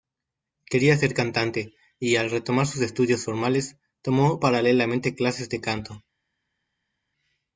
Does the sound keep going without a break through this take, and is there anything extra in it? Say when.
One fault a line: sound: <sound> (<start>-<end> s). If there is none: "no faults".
no faults